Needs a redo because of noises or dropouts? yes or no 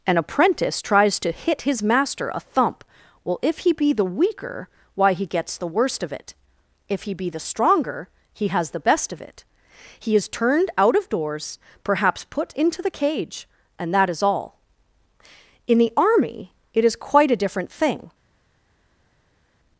no